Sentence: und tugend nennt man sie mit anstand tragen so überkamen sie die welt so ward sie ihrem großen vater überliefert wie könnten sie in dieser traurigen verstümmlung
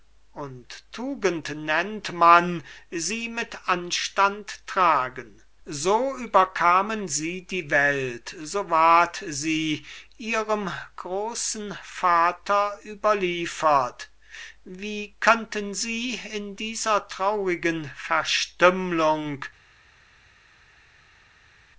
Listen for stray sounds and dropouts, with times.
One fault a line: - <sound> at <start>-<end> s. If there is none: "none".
none